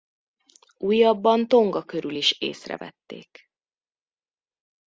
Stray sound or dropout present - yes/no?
no